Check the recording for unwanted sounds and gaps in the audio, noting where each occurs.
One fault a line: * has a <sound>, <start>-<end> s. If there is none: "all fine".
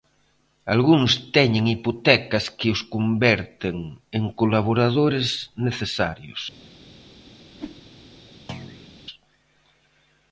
* has a whoosh, 7.5-7.8 s
* has a thud, 8.5-8.9 s